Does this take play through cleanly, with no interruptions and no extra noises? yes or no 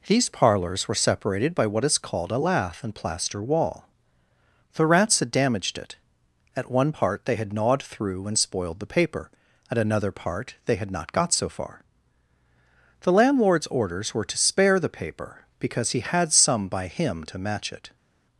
yes